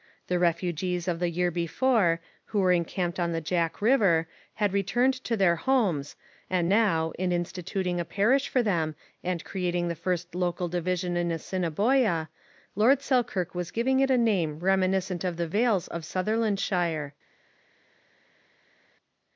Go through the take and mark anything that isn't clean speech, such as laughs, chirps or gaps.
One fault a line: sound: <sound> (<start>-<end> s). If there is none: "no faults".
no faults